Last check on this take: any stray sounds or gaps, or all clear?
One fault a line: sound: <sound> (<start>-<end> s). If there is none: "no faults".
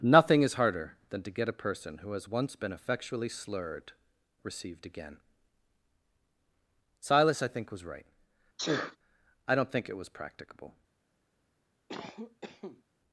sound: sneeze (8.6-9.0 s)
sound: cough (11.9-12.8 s)